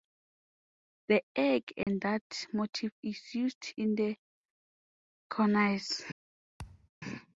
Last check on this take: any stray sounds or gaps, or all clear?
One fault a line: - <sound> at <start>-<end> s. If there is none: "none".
- dropout at 1.8-1.9 s
- thud at 6.6-6.9 s